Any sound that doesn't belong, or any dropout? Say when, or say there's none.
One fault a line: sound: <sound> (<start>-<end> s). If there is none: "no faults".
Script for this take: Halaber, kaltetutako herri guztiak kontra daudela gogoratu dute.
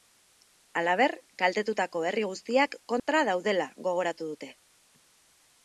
sound: dropout (3.0-3.1 s)